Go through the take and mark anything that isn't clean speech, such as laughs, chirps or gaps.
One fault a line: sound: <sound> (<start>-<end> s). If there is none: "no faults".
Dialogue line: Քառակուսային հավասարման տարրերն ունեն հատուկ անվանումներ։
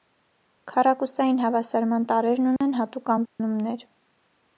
sound: dropout (2.6-2.6 s)
sound: dropout (3.3-3.4 s)